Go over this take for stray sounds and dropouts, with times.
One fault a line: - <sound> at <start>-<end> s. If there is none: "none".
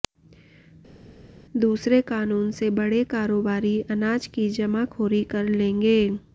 none